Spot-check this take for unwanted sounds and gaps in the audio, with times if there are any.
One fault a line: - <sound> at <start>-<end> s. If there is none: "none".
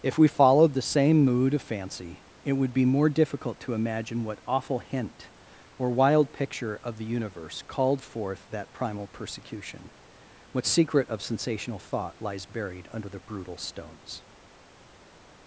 none